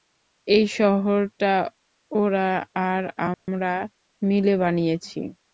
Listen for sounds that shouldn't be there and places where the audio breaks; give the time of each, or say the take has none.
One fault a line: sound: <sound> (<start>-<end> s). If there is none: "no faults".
sound: dropout (3.3-3.5 s)